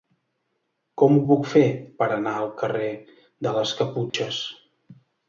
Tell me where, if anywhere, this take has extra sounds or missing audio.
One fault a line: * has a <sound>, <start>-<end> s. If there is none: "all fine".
* has a dropout, 4.1-4.1 s